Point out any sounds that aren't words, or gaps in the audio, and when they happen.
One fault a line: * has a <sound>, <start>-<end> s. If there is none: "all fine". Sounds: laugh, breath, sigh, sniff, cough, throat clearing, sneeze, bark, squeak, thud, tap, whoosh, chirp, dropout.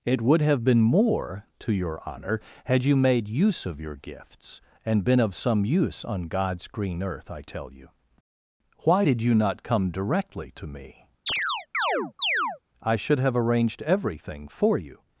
* has a chirp, 11.3-12.6 s